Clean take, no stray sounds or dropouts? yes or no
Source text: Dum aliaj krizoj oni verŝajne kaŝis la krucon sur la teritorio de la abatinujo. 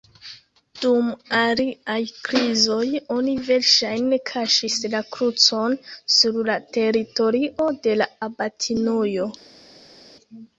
yes